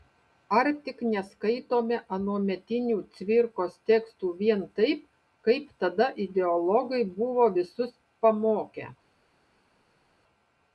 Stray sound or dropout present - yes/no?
no